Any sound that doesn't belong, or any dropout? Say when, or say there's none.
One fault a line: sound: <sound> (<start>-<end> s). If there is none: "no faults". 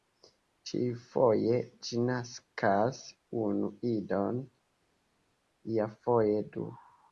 no faults